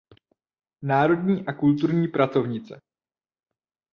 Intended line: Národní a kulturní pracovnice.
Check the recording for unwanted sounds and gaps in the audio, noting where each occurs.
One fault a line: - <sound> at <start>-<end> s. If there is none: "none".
none